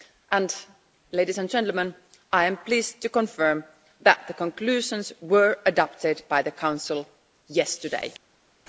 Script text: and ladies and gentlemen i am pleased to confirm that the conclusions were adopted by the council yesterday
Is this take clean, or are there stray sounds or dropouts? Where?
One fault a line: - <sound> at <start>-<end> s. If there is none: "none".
none